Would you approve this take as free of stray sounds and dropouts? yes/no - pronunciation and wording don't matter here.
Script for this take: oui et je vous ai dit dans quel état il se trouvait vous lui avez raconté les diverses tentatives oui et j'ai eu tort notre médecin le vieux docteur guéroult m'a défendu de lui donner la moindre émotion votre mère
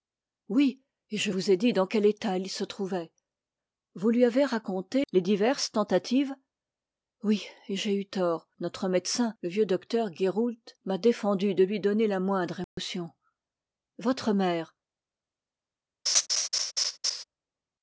no